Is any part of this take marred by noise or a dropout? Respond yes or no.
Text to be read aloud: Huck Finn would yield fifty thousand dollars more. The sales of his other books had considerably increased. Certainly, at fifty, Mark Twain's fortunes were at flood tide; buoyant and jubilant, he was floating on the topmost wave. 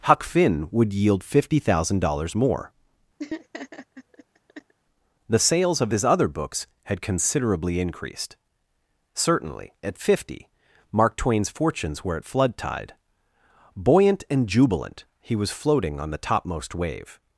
yes